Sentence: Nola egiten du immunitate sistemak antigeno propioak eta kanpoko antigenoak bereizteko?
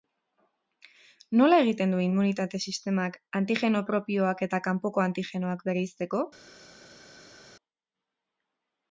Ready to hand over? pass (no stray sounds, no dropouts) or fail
pass